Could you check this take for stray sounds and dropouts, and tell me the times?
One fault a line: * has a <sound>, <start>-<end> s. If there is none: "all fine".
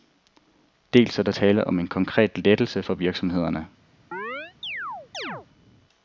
* has a chirp, 4.1-5.5 s